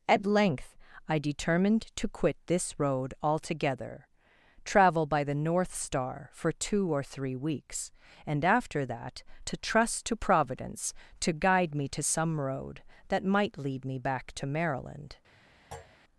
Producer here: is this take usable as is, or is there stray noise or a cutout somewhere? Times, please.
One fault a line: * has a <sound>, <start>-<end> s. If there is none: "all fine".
* has a thud, 15.7-16.0 s